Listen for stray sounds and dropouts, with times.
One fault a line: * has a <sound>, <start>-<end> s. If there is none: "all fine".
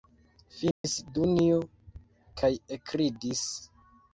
* has a dropout, 0.7-0.8 s